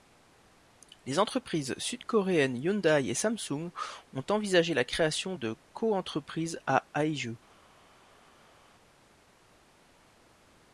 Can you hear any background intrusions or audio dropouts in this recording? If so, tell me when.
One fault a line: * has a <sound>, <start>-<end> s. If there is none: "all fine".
all fine